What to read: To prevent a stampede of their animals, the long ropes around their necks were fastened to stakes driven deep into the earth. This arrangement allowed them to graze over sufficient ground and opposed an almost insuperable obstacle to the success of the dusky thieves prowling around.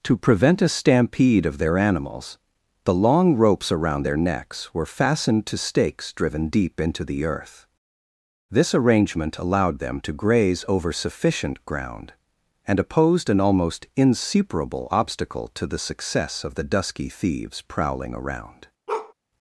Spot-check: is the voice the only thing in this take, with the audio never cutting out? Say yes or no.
no